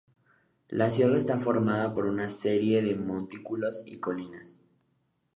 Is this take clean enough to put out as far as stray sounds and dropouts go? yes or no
yes